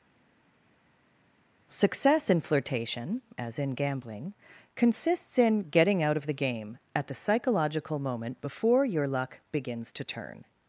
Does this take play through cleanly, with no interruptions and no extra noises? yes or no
yes